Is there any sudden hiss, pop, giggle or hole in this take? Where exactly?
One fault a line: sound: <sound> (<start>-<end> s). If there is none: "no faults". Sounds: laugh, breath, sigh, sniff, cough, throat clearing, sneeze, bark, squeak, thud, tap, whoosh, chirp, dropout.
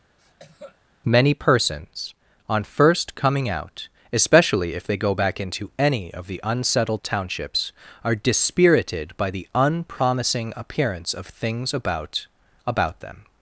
sound: cough (0.2-0.8 s)